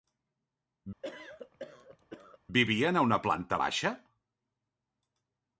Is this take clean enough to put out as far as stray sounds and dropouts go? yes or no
no